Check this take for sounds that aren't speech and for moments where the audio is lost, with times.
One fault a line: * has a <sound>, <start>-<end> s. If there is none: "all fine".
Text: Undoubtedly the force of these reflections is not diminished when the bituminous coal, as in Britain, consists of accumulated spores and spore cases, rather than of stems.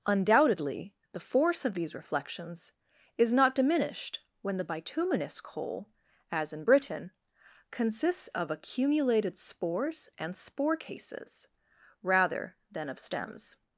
all fine